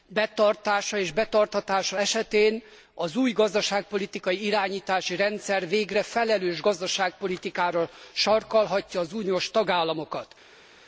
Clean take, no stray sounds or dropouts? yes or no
yes